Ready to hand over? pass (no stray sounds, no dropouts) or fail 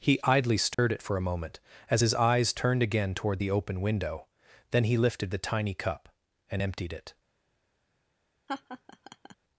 fail